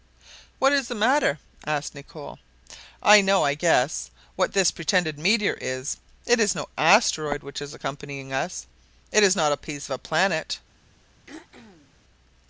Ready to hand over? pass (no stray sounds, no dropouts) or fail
fail